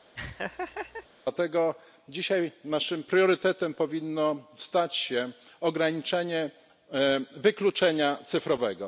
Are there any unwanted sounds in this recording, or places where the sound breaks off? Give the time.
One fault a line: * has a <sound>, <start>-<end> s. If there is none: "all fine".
* has a laugh, 0.2-1.1 s